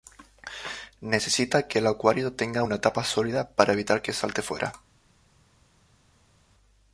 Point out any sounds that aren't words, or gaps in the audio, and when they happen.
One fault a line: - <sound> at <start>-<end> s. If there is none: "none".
none